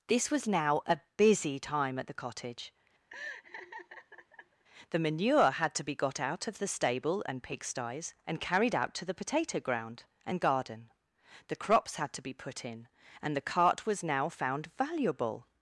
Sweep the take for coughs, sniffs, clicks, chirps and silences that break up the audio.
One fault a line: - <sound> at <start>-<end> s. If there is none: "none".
- laugh at 3.1-4.6 s